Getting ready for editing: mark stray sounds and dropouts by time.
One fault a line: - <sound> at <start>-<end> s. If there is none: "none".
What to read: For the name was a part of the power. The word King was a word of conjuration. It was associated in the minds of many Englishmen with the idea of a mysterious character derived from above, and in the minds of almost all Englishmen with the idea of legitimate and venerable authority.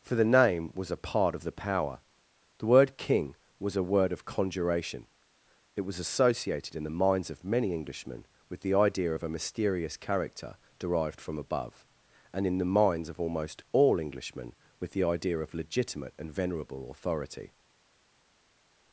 none